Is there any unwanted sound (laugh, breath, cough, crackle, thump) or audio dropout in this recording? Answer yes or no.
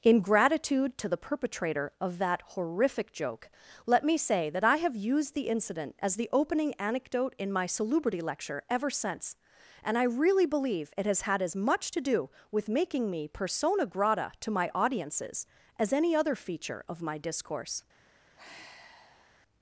yes